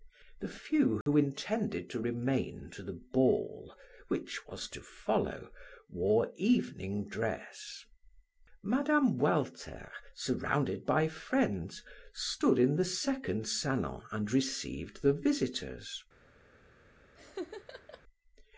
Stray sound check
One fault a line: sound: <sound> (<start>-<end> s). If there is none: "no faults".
sound: dropout (1.0-1.1 s)
sound: laugh (17.1-18.0 s)